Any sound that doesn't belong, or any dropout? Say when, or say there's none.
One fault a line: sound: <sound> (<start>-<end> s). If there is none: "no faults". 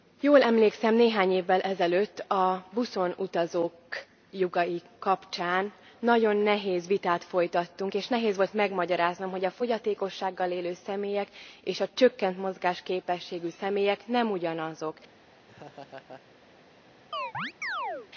sound: laugh (15.5-16.2 s)
sound: chirp (17.1-18.1 s)